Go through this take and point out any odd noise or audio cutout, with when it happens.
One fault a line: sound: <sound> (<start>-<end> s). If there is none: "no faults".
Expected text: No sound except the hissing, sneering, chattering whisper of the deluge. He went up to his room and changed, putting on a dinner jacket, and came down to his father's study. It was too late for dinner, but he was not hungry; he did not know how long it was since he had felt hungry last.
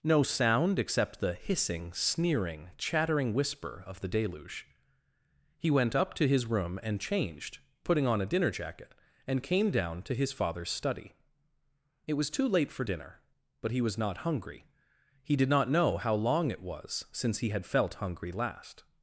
no faults